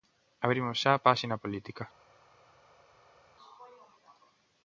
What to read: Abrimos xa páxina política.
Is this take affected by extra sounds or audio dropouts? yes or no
no